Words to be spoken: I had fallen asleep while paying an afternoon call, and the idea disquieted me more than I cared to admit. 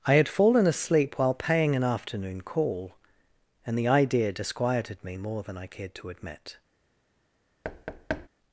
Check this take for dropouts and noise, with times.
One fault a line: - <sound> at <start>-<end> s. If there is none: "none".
- thud at 7.6-8.3 s